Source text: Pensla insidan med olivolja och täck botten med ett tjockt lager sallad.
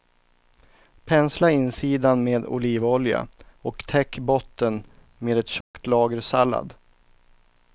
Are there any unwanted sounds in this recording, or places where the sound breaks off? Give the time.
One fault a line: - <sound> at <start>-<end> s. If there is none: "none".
- dropout at 5.6-5.7 s